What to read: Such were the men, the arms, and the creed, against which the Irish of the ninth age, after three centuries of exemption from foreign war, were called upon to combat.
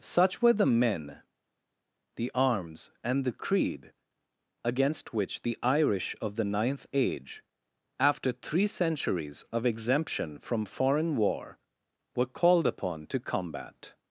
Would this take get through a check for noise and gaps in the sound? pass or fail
pass